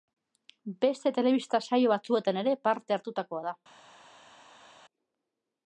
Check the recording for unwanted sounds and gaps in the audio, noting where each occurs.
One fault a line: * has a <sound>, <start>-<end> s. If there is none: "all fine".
all fine